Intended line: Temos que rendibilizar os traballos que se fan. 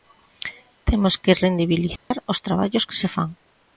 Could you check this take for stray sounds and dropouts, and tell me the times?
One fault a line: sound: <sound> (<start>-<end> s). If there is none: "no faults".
sound: dropout (2.0-2.1 s)